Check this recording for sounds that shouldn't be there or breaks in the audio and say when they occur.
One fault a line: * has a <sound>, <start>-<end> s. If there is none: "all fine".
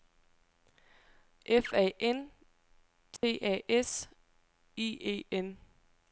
* has a dropout, 3.2-3.2 s